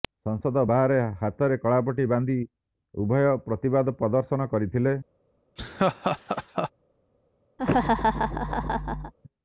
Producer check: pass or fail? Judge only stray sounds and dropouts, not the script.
fail